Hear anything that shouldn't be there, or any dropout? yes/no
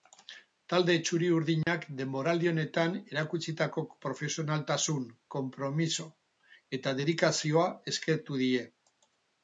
yes